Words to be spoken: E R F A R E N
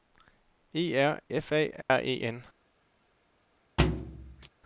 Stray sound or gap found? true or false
true